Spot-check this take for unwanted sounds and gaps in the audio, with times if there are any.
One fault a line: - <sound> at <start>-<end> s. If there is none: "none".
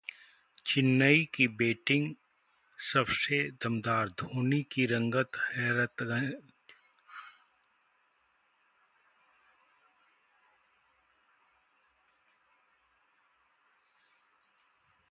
none